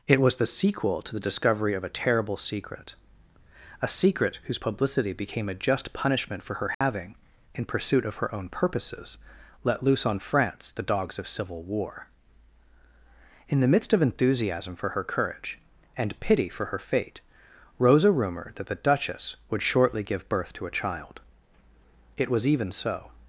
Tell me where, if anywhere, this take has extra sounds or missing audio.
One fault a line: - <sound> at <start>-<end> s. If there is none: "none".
- dropout at 6.7-6.8 s